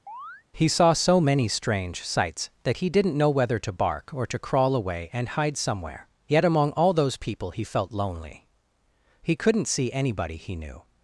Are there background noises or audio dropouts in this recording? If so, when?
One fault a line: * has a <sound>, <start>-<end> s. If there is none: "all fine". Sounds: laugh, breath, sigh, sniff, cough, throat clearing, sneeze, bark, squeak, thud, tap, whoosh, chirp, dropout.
* has a chirp, 0.1-0.4 s